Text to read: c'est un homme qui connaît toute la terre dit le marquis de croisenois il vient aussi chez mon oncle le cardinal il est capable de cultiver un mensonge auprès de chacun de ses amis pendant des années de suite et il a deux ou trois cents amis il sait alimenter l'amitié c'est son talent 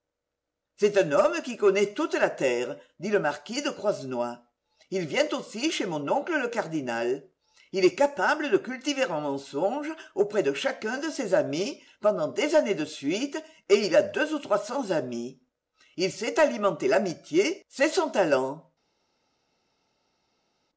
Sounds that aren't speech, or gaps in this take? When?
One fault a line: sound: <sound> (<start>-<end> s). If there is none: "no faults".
no faults